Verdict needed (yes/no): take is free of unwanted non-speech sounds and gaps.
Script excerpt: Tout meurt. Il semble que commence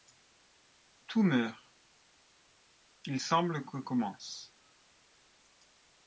yes